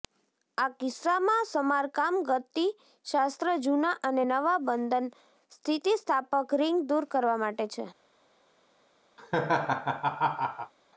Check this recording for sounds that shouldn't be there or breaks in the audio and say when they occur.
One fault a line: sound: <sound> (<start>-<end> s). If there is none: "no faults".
sound: laugh (9.2-10.7 s)